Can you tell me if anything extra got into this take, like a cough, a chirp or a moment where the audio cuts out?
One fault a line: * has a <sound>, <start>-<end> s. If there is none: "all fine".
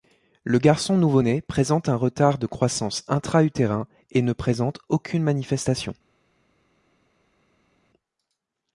all fine